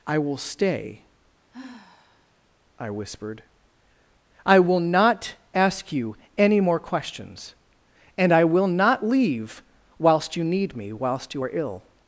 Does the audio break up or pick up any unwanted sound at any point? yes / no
yes